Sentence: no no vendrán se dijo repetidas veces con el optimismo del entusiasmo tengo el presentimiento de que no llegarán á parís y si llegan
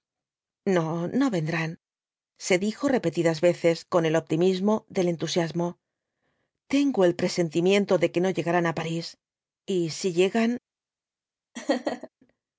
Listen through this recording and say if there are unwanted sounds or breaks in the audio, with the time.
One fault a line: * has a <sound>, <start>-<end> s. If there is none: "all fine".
* has a laugh, 11.6-12.1 s